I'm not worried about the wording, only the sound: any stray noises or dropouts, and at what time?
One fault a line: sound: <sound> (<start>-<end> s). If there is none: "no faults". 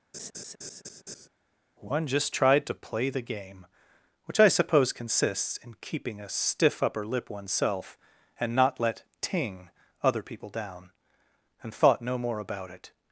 sound: laugh (0.1-1.3 s)